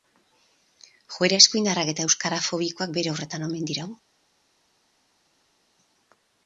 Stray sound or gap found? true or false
false